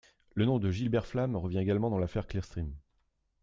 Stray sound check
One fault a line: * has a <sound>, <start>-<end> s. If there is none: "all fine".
all fine